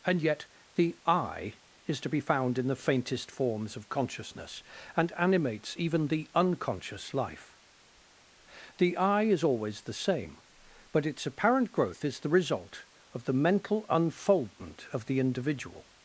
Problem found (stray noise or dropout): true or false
false